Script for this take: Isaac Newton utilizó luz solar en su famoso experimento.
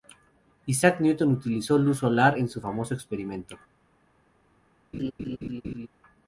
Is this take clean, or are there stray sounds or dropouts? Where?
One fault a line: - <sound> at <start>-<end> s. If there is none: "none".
- laugh at 4.9-5.9 s